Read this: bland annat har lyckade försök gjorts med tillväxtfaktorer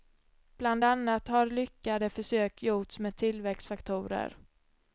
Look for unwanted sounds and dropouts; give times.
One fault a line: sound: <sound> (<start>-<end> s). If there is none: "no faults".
no faults